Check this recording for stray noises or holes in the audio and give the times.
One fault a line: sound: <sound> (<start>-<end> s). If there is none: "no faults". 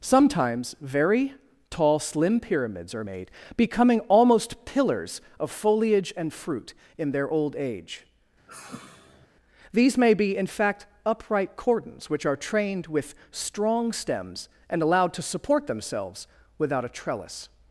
sound: sigh (8.5-9.3 s)